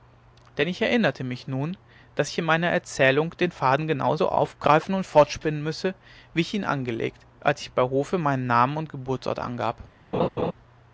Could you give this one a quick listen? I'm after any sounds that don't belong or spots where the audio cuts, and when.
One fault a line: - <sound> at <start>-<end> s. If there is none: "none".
- laugh at 10.1-10.5 s